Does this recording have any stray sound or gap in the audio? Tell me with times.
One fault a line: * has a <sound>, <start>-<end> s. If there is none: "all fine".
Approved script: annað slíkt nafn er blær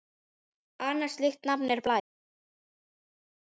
all fine